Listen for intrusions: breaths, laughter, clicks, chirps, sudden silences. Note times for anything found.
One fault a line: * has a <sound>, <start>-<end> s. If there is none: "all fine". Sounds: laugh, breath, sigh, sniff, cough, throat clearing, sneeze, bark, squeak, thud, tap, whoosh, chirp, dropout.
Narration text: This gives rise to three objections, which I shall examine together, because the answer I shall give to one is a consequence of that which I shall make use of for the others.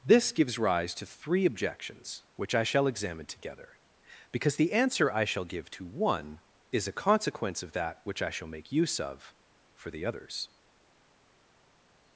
all fine